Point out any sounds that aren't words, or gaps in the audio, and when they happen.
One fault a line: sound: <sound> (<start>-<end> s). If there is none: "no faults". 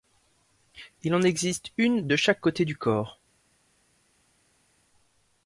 no faults